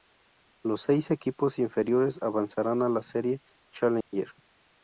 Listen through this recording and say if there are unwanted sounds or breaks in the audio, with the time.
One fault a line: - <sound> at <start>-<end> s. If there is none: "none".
- dropout at 4.0-4.1 s